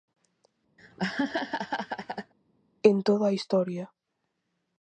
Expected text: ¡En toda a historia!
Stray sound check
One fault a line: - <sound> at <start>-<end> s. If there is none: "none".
- laugh at 0.8-2.3 s